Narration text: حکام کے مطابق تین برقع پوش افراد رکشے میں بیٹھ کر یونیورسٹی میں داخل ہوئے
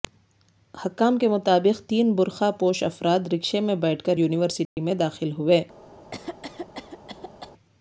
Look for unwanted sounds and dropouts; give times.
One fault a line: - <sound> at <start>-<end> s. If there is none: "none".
- dropout at 4.7-4.8 s
- cough at 6.1-7.5 s